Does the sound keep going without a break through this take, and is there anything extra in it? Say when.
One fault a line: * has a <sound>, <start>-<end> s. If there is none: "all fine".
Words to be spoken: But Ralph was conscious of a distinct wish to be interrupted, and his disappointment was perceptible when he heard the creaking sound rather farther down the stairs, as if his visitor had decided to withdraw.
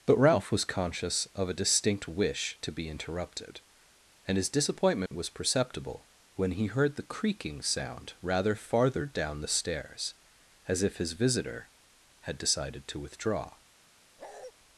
* has a dropout, 5.1-5.1 s
* has a bark, 14.2-14.5 s